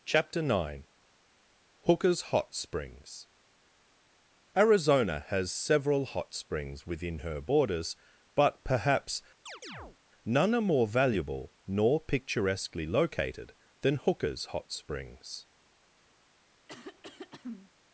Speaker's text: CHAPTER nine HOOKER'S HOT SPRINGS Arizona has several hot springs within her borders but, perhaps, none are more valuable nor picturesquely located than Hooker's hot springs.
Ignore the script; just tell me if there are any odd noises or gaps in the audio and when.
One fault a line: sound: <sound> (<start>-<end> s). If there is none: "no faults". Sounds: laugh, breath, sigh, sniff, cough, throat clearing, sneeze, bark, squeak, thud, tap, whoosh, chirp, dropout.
sound: chirp (9.5-10.0 s)
sound: throat clearing (16.7-17.7 s)